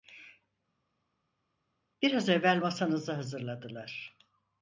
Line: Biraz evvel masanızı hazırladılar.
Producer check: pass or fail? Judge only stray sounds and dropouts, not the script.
pass